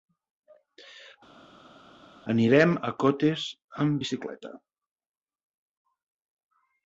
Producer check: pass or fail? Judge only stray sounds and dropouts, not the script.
pass